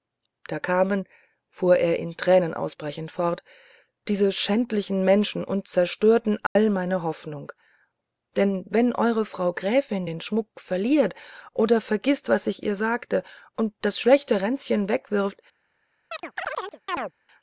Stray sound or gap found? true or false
true